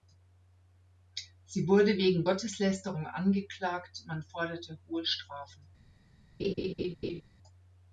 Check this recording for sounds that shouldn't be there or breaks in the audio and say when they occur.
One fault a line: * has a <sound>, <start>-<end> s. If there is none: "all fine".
* has a laugh, 6.4-7.2 s